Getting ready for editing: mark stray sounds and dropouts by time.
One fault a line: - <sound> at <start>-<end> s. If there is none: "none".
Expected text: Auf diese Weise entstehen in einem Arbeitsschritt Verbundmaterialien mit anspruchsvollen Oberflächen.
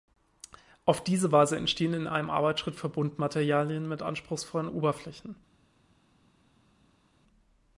none